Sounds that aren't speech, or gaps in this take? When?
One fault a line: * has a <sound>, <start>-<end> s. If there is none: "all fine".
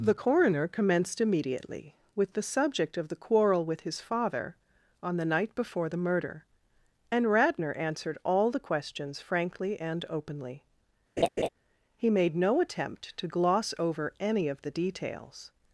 * has a laugh, 11.2-11.5 s